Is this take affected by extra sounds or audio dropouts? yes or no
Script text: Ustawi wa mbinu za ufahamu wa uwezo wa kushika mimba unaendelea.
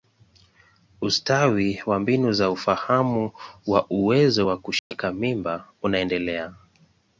yes